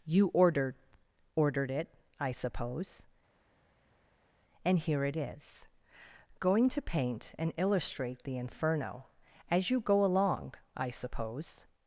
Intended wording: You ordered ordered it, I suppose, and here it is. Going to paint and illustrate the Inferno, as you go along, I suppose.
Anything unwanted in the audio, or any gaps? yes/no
no